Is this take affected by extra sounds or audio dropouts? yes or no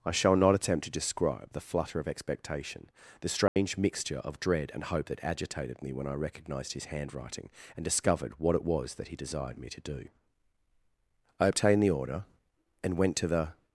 yes